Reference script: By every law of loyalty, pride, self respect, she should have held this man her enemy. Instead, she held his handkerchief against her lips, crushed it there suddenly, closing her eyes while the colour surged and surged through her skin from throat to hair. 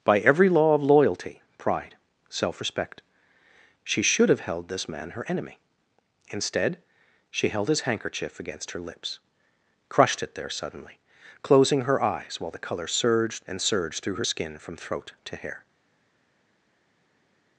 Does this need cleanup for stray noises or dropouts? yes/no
no